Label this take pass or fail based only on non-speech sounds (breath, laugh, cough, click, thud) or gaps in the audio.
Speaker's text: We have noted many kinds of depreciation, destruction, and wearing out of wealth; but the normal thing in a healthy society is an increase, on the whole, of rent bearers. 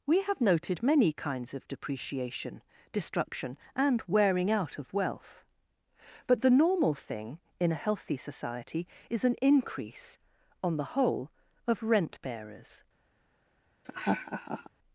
fail